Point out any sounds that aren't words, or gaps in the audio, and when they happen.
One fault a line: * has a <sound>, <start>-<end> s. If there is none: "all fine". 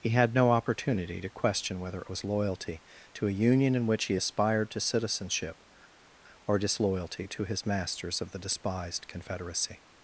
all fine